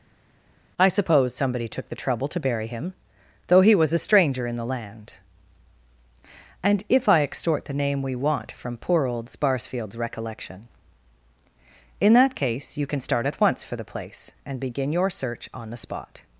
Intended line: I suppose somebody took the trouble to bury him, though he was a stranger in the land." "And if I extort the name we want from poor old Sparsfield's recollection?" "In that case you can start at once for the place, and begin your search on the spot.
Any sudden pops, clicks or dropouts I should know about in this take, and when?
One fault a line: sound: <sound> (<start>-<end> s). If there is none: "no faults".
no faults